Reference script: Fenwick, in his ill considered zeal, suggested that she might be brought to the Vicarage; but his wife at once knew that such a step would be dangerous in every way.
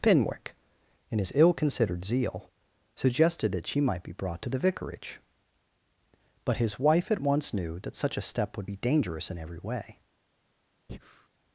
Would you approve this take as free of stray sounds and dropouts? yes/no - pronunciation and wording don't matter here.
no